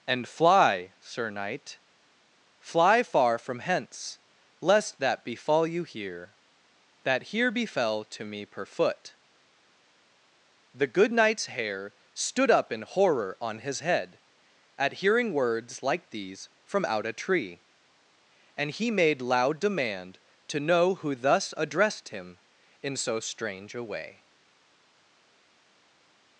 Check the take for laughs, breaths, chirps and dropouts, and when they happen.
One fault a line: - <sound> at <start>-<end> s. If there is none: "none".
none